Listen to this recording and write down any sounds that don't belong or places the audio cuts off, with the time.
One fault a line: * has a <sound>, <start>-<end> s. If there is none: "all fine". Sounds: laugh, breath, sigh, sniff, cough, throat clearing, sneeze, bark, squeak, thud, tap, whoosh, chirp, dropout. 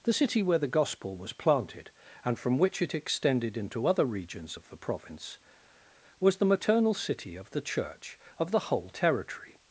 all fine